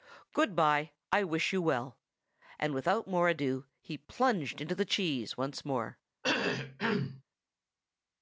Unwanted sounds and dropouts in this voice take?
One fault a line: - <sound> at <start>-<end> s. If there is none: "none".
- cough at 6.2-7.2 s